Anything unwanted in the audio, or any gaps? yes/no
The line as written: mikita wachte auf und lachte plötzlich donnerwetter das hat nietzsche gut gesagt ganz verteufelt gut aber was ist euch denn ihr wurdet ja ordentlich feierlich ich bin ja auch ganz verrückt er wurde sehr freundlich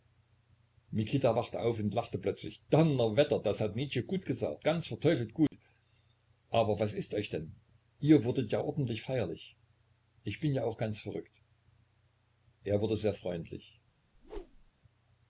yes